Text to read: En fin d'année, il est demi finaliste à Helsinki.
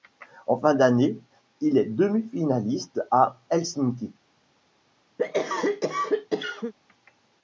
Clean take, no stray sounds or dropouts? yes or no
no